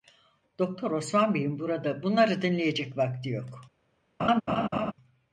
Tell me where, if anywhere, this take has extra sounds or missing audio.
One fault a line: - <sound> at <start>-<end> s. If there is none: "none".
- laugh at 4.2-4.9 s